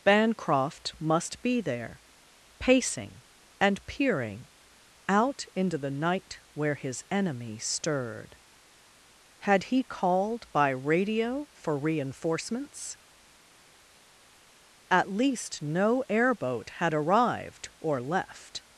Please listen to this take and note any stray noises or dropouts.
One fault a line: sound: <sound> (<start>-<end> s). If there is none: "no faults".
no faults